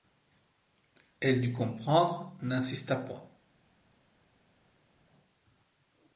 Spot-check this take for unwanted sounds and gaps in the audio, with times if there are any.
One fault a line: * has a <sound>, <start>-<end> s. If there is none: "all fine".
all fine